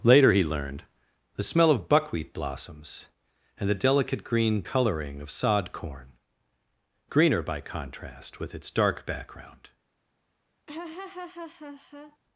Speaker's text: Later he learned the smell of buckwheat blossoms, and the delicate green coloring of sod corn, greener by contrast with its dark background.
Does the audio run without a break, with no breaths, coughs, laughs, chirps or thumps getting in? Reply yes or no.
no